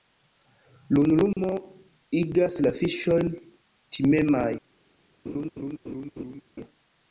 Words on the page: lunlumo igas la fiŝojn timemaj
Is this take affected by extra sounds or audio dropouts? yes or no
yes